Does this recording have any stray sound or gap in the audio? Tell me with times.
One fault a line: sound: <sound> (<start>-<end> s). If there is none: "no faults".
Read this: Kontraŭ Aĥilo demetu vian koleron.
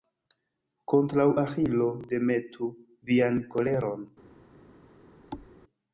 sound: thud (5.3-5.5 s)